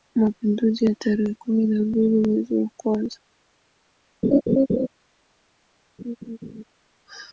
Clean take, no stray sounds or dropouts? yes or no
no